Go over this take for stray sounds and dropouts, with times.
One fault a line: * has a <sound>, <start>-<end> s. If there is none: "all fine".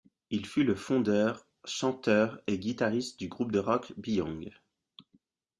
all fine